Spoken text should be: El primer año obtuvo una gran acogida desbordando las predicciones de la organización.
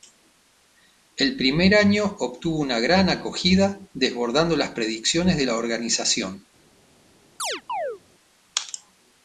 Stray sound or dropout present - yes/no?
yes